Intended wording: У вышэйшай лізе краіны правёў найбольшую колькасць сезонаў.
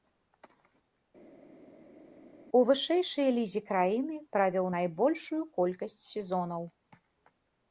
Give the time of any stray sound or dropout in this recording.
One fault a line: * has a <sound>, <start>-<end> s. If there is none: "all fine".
all fine